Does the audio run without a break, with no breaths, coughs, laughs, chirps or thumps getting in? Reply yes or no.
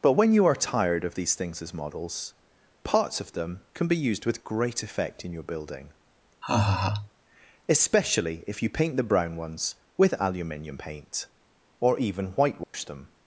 no